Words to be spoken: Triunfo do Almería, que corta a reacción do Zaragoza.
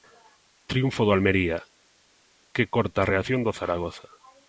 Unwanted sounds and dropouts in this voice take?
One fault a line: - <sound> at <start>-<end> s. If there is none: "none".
none